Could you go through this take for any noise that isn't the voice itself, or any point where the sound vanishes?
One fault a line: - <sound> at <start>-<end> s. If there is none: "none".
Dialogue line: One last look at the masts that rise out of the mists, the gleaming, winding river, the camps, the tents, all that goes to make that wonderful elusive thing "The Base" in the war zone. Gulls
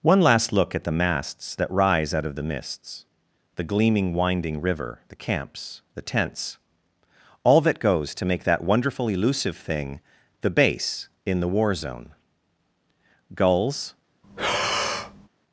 - breath at 14.2-15.3 s